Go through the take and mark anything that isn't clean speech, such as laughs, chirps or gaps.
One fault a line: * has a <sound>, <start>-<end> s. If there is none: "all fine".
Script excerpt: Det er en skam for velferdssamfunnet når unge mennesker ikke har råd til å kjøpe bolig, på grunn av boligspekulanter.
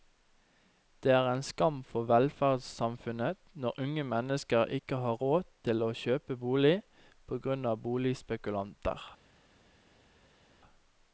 all fine